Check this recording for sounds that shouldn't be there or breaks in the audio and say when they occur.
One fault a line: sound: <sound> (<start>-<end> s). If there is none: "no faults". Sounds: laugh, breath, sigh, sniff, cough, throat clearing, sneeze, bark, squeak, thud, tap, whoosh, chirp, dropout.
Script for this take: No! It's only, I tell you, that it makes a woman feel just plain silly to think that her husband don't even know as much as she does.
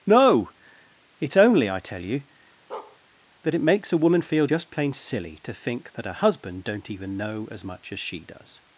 sound: bark (2.7-3.0 s)